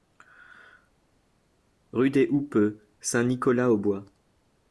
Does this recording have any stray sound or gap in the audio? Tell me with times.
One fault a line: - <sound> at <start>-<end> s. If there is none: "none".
none